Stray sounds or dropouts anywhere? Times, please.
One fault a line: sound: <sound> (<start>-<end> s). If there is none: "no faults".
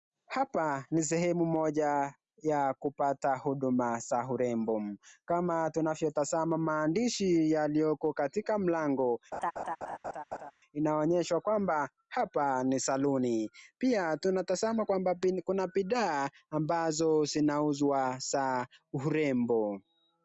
sound: laugh (9.3-10.5 s)